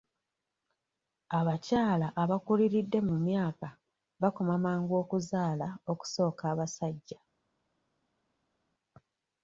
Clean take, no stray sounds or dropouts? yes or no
yes